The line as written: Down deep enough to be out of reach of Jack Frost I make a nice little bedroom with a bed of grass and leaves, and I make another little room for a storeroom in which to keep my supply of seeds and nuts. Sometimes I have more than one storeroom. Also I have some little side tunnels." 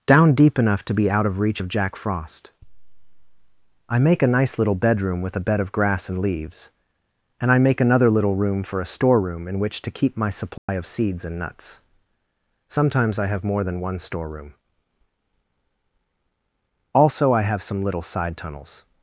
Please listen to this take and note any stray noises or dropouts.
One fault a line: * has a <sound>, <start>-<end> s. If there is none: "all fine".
* has a dropout, 10.6-10.7 s